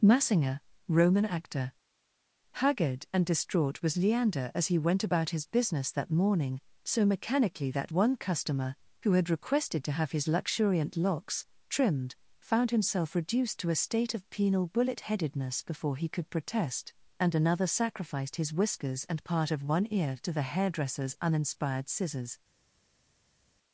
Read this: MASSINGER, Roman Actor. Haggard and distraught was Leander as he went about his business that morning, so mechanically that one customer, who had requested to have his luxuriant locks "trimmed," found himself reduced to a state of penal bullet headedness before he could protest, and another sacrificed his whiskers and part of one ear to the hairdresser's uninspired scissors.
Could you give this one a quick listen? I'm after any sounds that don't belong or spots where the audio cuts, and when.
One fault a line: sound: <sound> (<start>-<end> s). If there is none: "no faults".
no faults